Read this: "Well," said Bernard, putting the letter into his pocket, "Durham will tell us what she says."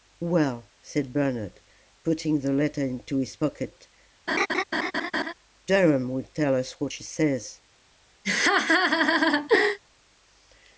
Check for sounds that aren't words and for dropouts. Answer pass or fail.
fail